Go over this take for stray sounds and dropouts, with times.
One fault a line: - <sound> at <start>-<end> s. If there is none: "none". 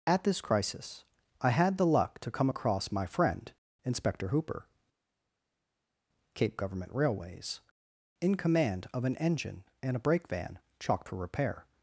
none